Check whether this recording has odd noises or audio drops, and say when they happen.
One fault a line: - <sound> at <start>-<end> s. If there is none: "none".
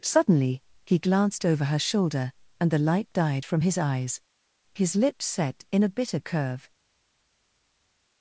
none